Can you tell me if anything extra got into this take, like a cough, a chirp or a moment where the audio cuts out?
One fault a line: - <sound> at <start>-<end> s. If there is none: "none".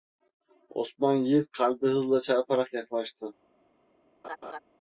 - laugh at 4.2-4.6 s